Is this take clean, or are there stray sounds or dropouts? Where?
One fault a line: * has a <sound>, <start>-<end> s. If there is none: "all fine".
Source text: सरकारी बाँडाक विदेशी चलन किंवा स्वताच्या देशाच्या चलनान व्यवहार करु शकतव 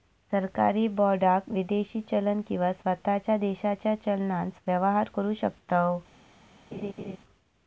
* has a laugh, 6.7-7.2 s